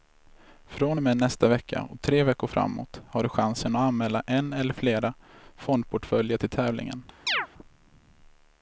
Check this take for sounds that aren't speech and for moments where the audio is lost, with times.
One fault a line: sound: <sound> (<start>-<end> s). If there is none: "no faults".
sound: chirp (7.3-7.5 s)